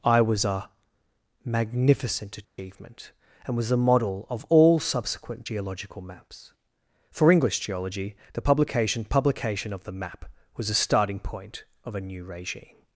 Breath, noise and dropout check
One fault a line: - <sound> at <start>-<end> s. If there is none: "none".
- dropout at 2.4-2.6 s